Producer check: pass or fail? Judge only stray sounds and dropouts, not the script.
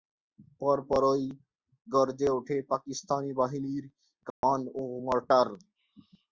fail